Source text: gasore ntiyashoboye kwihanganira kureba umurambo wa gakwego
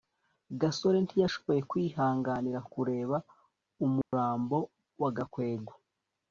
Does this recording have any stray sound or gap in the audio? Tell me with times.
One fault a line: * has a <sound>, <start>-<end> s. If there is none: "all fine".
* has a dropout, 4.0-4.1 s